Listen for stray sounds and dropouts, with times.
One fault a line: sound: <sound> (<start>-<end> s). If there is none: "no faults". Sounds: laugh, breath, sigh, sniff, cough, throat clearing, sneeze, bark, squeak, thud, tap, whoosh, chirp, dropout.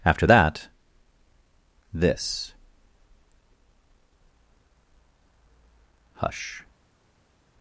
no faults